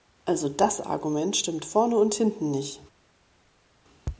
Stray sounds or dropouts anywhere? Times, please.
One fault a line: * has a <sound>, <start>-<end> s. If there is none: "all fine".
all fine